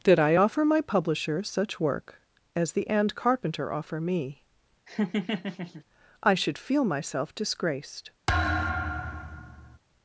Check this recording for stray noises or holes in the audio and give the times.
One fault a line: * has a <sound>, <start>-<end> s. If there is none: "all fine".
* has a laugh, 4.9-5.8 s
* has a thud, 8.3-9.8 s